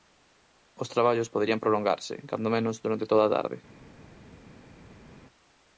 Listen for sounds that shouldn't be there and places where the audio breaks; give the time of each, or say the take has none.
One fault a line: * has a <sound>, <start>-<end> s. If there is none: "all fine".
all fine